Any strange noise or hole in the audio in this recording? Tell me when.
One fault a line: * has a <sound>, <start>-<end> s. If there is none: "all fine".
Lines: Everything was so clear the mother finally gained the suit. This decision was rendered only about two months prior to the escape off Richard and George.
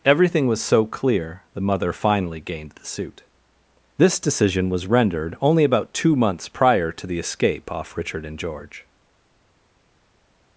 all fine